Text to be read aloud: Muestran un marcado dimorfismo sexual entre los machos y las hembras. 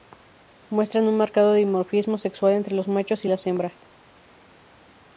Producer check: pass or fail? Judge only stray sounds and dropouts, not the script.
pass